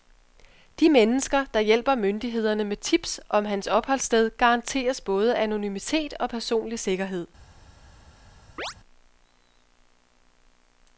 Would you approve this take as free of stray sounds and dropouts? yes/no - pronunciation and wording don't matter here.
no